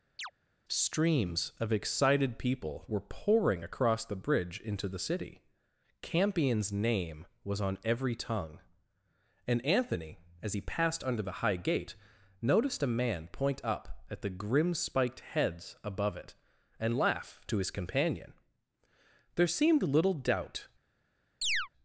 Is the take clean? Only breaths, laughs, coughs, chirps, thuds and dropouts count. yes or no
no